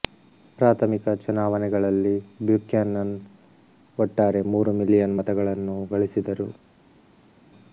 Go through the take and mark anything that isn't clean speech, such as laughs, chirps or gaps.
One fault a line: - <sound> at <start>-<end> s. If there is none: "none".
none